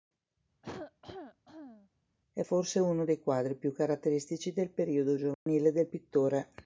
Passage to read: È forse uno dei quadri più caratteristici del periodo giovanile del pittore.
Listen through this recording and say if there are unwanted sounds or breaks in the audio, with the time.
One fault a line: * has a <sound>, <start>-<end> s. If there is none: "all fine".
* has a cough, 0.6-1.9 s
* has a dropout, 5.3-5.5 s